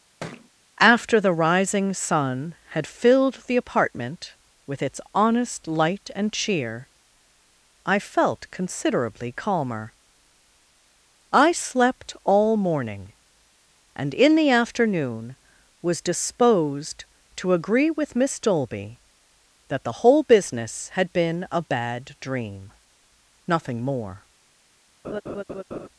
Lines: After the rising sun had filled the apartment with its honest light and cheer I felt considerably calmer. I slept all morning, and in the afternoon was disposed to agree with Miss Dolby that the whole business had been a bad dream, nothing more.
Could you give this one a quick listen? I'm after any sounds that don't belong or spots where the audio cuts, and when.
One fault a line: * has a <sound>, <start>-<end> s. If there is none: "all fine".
* has a thud, 0.2-0.5 s
* has a laugh, 25.0-25.9 s